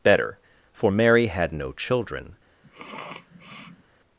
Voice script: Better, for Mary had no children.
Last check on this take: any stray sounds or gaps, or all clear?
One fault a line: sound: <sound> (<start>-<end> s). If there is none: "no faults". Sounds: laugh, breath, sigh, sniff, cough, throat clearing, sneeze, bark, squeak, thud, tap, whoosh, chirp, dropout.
sound: sniff (2.6-3.8 s)